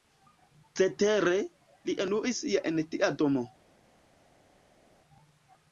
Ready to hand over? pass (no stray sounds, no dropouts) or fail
pass